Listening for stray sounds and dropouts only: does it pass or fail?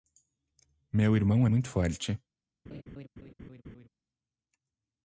fail